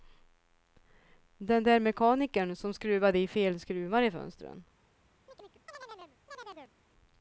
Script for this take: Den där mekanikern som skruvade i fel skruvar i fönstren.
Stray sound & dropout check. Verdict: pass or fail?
fail